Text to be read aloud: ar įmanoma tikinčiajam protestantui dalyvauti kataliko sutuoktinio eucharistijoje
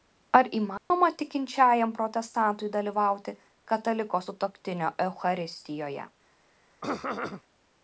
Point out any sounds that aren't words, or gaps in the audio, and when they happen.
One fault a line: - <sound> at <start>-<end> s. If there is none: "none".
- dropout at 0.8-0.9 s
- throat clearing at 6.8-7.4 s